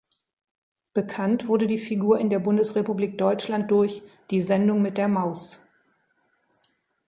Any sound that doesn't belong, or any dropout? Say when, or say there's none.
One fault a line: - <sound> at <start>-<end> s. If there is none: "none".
none